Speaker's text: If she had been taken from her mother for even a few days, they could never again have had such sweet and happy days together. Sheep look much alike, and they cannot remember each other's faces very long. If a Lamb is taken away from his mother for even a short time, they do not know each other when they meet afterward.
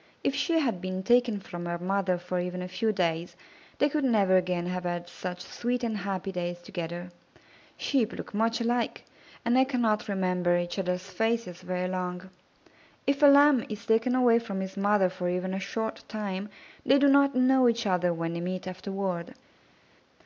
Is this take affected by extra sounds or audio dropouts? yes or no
no